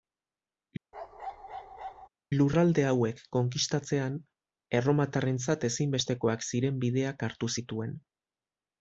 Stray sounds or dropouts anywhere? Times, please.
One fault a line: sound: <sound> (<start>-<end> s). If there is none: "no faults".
sound: bark (0.9-2.1 s)